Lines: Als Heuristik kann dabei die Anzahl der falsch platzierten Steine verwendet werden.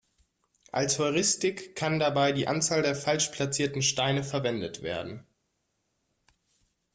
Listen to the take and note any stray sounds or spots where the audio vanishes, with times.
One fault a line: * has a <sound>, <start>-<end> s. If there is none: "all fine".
all fine